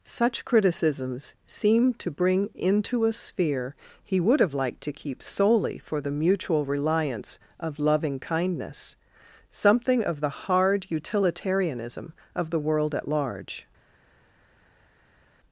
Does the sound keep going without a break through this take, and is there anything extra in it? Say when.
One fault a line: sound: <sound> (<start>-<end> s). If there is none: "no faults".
no faults